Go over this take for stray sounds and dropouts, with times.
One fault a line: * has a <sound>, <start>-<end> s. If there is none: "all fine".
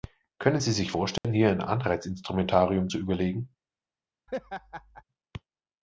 * has a dropout, 1.2-1.2 s
* has a laugh, 4.3-5.0 s